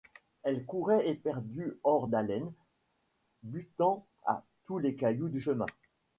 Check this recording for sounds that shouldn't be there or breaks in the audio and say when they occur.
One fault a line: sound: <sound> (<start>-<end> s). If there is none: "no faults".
no faults